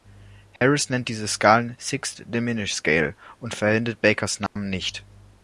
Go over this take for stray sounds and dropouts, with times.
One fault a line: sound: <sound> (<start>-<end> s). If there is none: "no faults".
sound: dropout (0.6-0.6 s)
sound: dropout (4.5-4.6 s)